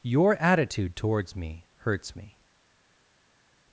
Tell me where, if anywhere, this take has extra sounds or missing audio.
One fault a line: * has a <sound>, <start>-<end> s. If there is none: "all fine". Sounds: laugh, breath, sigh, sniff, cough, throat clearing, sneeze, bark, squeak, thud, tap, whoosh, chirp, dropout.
all fine